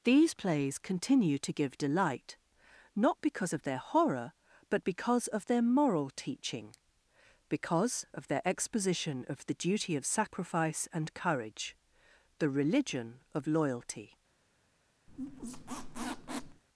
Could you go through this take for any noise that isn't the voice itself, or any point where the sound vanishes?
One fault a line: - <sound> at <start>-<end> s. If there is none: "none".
- squeak at 15.1-16.6 s